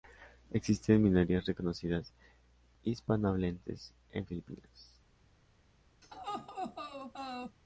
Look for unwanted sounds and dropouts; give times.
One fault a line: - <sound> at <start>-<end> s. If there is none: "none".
- laugh at 6.0-7.6 s